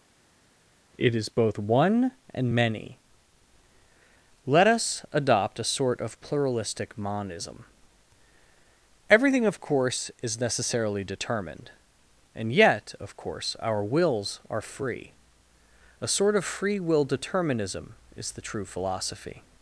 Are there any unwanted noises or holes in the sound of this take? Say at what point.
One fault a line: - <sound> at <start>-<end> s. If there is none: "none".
none